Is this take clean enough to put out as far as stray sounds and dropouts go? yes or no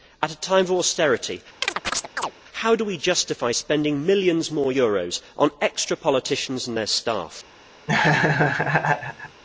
no